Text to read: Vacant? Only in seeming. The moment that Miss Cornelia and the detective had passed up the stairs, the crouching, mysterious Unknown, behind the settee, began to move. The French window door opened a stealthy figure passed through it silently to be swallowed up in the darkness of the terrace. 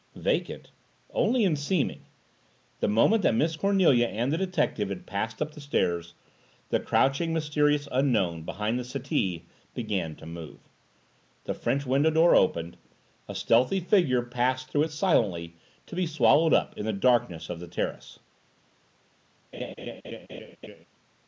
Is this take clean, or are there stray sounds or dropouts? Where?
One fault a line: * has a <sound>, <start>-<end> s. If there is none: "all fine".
* has a laugh, 19.5-20.8 s